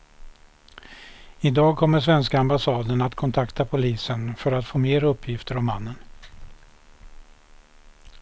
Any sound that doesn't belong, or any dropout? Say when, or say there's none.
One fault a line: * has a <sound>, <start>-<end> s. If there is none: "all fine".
all fine